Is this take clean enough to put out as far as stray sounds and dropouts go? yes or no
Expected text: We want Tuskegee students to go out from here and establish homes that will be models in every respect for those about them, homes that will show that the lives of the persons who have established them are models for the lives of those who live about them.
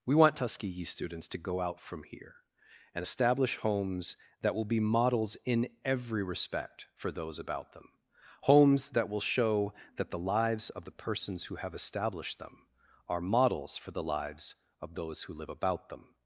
yes